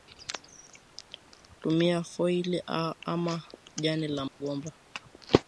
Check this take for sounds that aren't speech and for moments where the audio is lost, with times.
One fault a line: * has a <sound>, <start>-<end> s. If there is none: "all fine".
* has a dropout, 4.3-4.4 s